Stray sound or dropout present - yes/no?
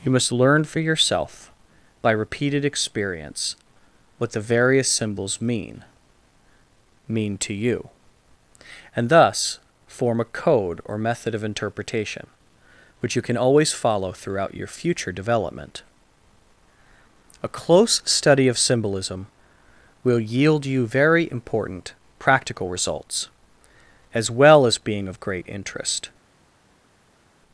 no